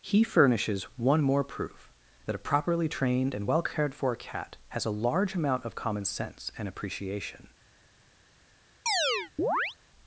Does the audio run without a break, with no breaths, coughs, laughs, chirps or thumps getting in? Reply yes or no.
no